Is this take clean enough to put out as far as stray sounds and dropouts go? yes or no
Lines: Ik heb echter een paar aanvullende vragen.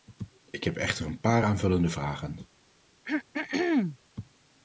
no